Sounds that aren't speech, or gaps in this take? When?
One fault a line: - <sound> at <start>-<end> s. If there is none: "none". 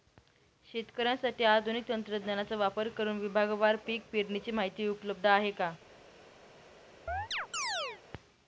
- chirp at 7.1-8.0 s